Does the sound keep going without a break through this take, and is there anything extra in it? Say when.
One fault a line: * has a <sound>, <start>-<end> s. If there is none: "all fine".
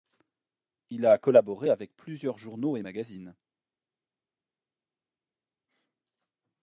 all fine